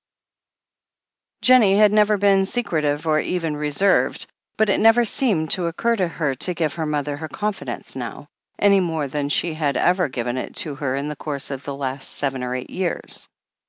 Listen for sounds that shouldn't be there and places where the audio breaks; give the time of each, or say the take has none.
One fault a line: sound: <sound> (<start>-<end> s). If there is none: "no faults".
no faults